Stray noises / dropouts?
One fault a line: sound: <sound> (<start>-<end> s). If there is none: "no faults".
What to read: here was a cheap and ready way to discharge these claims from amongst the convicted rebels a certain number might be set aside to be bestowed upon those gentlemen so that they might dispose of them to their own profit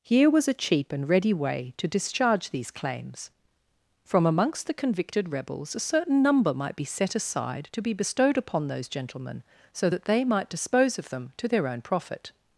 no faults